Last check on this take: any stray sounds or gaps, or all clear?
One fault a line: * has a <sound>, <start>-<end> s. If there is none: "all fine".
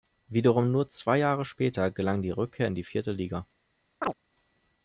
* has a chirp, 4.0-4.1 s